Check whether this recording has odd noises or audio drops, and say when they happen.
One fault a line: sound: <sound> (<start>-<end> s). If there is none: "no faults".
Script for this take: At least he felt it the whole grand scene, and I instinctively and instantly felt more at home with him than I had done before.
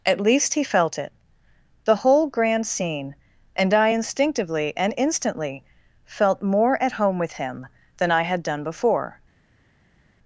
no faults